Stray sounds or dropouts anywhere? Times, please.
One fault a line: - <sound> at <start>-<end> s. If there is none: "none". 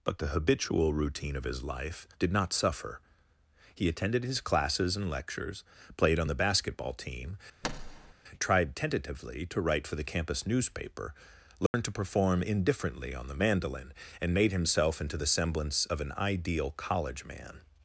- thud at 7.6-8.1 s
- dropout at 11.7-11.7 s